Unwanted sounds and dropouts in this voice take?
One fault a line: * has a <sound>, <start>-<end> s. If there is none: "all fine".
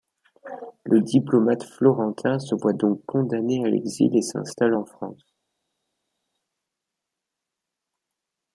all fine